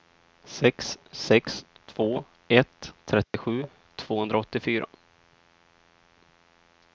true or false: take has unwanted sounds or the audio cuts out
true